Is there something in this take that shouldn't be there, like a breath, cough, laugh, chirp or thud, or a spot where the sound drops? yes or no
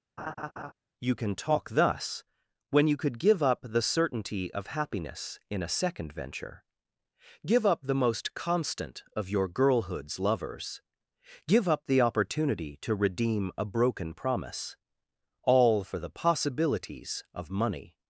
yes